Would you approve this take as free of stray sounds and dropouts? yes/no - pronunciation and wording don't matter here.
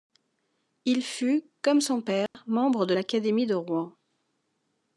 no